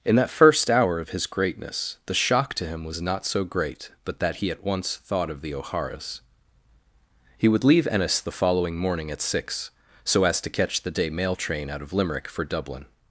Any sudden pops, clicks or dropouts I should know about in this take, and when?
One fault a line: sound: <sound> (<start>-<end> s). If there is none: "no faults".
no faults